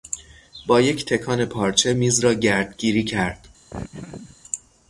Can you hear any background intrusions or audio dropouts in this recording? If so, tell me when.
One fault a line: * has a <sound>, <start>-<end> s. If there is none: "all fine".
* has a laugh, 3.7-4.4 s